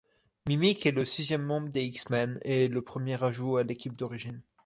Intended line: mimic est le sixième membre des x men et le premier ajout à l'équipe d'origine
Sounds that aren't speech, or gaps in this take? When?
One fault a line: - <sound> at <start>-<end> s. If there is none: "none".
none